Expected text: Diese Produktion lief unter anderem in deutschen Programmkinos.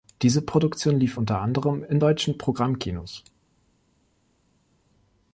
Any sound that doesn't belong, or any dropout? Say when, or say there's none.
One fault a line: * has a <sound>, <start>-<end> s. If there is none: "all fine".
all fine